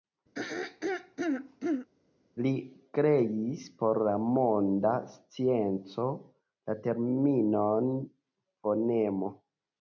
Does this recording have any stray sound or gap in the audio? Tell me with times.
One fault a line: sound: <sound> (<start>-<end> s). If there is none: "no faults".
sound: throat clearing (0.3-1.9 s)